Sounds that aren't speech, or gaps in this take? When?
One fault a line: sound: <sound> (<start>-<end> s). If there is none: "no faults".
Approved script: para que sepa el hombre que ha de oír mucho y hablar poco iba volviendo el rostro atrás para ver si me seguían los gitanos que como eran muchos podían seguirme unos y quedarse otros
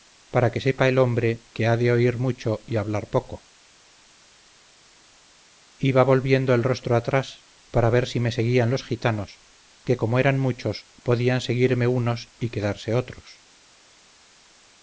no faults